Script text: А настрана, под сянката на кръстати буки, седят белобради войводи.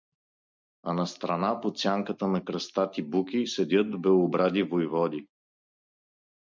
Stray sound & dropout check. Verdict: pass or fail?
pass